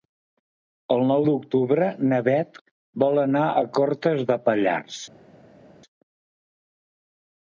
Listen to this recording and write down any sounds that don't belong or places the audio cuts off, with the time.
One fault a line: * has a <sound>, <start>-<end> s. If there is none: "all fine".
all fine